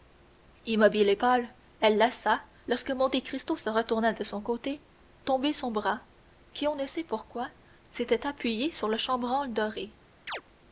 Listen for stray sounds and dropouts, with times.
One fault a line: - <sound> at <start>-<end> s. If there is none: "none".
- chirp at 10.3-10.4 s